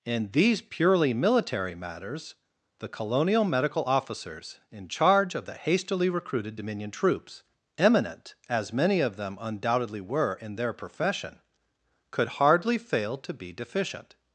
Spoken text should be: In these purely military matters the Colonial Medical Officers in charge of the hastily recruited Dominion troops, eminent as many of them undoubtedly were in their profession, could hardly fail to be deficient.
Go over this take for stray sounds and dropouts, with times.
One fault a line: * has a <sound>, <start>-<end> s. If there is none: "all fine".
all fine